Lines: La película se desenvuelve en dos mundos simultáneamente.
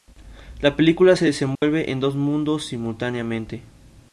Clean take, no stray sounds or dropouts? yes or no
no